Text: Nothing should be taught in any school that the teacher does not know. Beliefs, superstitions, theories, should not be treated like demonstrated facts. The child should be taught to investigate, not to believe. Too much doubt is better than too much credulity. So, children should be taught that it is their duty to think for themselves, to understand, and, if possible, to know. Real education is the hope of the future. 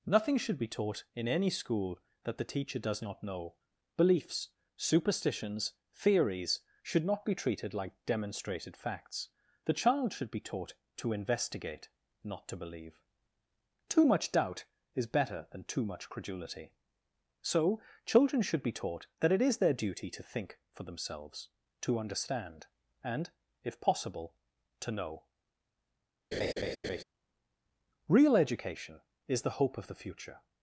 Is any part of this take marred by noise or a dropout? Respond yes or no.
yes